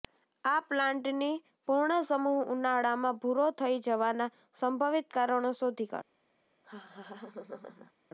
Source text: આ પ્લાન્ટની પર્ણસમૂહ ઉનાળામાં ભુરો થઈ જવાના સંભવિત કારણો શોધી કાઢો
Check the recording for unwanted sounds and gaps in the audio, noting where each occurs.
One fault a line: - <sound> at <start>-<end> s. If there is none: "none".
- laugh at 6.6-7.9 s